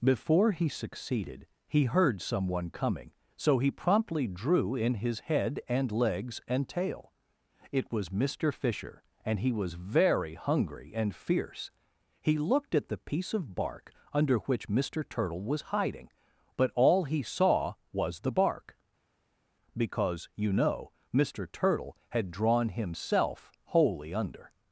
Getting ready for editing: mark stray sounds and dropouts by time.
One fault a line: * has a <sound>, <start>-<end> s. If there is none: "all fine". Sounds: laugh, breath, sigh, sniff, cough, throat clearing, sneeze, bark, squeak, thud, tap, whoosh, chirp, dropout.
all fine